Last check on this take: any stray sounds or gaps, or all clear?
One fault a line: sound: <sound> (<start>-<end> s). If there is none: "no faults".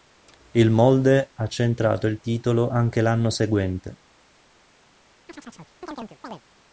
sound: chirp (5.3-6.4 s)